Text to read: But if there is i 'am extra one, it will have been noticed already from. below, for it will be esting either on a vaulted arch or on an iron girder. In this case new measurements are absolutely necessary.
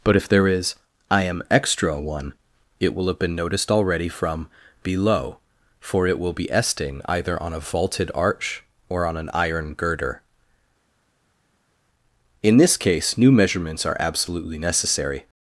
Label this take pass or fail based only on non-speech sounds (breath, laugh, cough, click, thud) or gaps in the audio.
pass